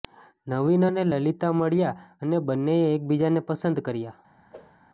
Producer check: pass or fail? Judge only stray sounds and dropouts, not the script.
fail